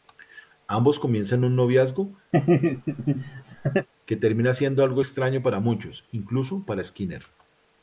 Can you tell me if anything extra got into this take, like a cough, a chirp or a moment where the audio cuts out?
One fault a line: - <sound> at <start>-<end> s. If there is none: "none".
- laugh at 2.3-3.9 s